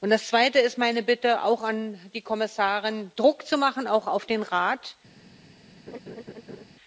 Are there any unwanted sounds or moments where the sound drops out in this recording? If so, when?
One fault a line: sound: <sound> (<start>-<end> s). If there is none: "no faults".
sound: laugh (5.9-6.7 s)